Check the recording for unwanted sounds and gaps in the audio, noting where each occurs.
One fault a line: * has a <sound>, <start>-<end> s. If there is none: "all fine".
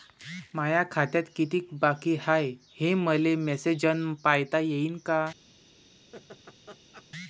* has a laugh, 6.1-7.1 s